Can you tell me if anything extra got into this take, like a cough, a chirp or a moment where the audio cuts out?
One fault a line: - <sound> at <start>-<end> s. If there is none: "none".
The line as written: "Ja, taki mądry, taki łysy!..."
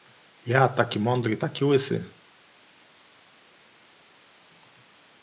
none